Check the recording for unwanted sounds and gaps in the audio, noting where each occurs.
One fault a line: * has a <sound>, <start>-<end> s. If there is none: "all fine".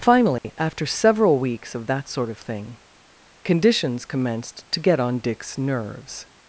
* has a dropout, 0.4-0.4 s